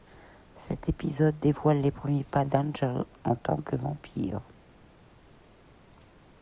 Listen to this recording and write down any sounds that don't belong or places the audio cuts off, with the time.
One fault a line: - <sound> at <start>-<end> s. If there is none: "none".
none